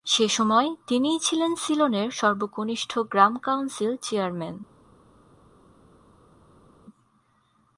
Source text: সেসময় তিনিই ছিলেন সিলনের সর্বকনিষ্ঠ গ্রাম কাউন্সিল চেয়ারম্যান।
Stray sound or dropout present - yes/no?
no